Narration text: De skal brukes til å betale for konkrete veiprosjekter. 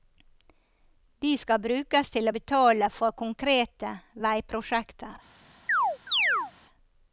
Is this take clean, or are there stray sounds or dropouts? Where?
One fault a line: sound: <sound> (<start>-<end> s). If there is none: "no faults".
sound: chirp (5.7-6.5 s)